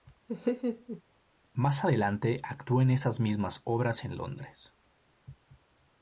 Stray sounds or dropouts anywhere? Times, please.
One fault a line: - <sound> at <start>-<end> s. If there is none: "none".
- laugh at 0.3-1.0 s